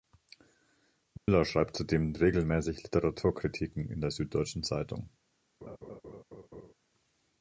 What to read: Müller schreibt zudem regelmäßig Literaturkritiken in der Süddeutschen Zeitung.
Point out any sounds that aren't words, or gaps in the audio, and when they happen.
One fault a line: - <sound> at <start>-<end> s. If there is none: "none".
- dropout at 1.2-1.3 s
- laugh at 5.6-6.7 s